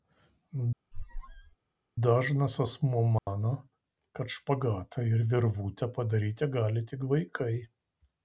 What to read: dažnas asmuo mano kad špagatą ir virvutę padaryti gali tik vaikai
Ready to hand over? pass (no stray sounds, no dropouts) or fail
fail